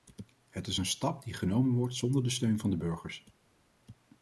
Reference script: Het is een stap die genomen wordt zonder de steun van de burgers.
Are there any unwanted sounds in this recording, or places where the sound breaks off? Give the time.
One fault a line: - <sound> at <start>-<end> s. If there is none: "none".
none